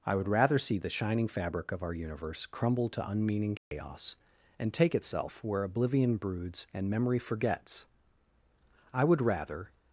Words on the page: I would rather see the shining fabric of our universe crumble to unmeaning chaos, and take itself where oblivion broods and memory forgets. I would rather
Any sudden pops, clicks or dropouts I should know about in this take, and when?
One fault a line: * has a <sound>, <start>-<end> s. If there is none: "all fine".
* has a dropout, 3.6-3.7 s